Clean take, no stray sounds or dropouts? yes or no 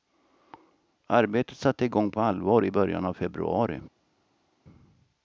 yes